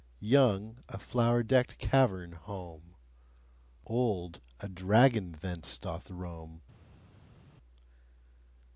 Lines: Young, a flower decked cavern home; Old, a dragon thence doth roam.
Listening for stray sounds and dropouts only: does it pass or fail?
pass